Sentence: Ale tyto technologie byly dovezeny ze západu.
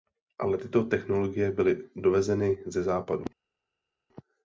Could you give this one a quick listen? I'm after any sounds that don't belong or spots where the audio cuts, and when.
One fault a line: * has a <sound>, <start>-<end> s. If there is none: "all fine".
all fine